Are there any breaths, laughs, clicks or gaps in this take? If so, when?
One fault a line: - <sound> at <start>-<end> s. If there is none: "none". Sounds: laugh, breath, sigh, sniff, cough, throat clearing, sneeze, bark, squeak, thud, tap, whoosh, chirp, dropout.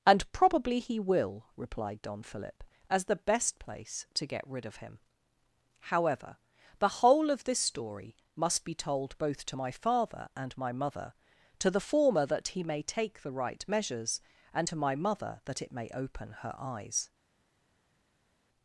none